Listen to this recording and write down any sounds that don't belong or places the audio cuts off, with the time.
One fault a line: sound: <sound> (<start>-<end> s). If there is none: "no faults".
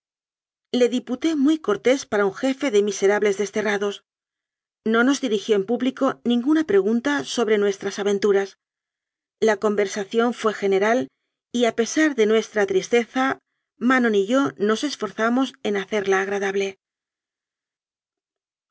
no faults